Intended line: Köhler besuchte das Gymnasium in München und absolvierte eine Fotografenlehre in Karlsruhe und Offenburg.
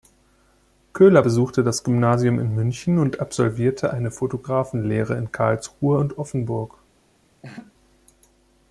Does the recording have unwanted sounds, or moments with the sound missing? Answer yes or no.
yes